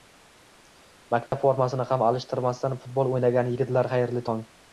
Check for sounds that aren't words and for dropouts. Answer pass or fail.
fail